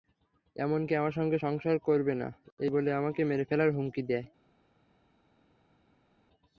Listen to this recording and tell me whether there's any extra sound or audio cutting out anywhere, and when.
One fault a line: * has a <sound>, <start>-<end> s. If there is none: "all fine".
all fine